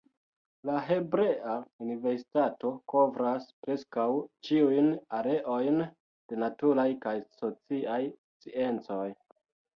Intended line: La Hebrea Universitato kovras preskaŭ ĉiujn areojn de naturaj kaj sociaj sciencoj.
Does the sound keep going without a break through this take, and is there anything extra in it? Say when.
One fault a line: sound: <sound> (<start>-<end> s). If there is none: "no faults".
no faults